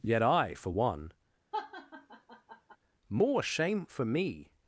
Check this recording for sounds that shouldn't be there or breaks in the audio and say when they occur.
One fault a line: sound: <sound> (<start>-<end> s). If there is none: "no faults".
sound: laugh (1.5-2.8 s)